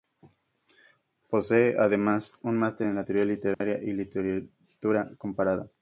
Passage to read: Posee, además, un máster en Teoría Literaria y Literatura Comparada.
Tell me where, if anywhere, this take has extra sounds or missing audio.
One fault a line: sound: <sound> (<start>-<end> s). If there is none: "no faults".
sound: dropout (3.5-3.6 s)